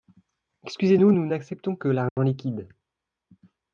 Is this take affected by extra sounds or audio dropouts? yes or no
yes